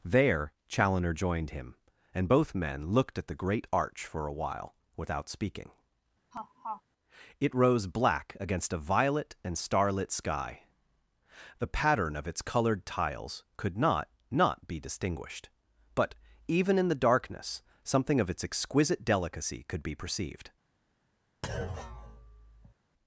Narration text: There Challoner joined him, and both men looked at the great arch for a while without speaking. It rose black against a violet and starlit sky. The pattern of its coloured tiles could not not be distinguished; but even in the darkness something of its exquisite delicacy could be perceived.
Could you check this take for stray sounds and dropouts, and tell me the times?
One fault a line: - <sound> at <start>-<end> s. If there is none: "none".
- laugh at 6.3-6.8 s
- thud at 21.4-22.7 s